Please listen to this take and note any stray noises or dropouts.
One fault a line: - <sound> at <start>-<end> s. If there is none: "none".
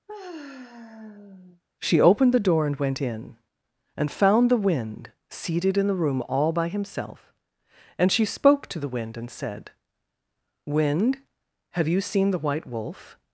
- sigh at 0.1-1.6 s